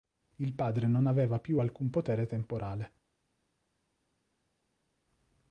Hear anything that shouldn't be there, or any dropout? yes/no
no